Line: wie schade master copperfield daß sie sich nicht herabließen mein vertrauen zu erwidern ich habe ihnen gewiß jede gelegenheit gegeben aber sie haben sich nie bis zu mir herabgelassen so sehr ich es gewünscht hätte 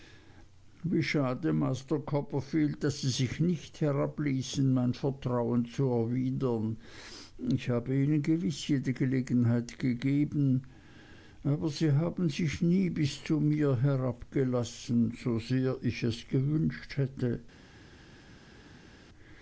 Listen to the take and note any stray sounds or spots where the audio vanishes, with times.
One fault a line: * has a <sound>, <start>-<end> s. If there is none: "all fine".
all fine